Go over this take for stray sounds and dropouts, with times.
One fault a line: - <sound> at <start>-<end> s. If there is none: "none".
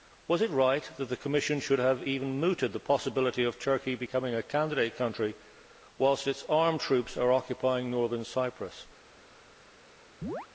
- chirp at 10.2-10.5 s